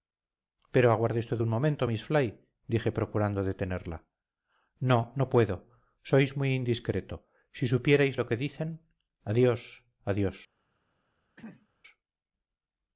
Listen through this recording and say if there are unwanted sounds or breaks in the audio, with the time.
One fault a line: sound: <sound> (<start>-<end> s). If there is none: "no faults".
sound: throat clearing (11.4-11.7 s)